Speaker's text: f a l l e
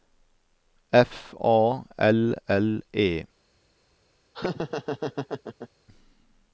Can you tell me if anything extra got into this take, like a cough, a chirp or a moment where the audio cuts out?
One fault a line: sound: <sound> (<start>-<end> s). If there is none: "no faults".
sound: laugh (4.3-5.7 s)